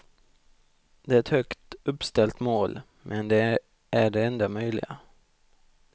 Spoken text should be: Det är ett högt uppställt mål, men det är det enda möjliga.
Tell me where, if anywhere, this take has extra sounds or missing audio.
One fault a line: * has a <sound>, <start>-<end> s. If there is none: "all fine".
all fine